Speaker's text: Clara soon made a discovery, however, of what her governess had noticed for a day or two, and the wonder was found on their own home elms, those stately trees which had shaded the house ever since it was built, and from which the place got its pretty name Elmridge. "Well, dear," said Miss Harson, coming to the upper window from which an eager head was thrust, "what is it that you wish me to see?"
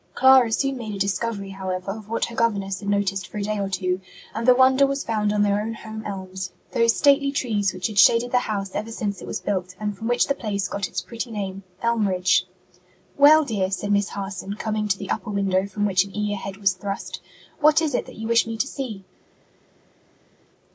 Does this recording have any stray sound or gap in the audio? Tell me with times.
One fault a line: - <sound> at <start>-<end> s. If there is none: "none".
none